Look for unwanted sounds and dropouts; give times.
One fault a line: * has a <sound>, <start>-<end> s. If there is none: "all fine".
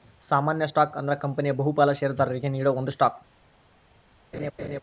* has a laugh, 4.3-4.8 s